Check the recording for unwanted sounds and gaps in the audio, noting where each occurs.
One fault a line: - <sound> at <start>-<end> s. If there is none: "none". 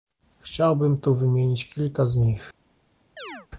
- chirp at 3.2-3.5 s